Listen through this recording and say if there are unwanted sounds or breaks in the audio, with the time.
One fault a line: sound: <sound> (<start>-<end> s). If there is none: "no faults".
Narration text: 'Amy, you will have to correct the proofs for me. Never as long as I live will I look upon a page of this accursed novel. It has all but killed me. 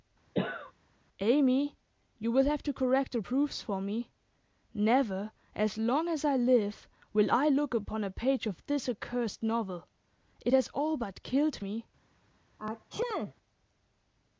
sound: cough (0.3-0.7 s)
sound: sneeze (12.6-13.3 s)